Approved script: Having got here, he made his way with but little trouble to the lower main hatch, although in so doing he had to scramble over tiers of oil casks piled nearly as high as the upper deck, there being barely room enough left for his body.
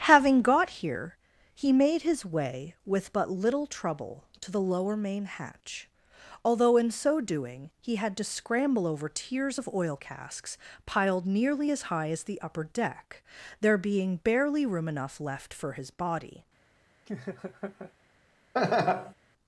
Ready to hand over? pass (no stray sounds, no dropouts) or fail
fail